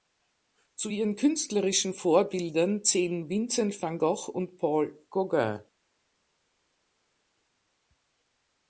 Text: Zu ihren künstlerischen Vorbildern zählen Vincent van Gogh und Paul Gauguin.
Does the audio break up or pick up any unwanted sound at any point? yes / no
no